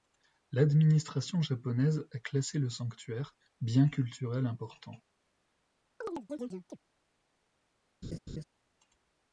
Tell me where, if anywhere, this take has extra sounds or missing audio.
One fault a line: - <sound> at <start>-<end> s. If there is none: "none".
- chirp at 6.0-6.8 s
- laugh at 8.0-8.4 s